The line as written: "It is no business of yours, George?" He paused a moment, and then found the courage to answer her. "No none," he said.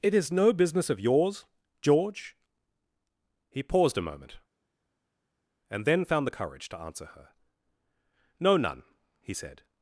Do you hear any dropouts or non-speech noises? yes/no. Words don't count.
no